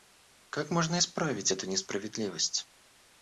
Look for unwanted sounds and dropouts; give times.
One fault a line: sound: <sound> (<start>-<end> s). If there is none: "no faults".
no faults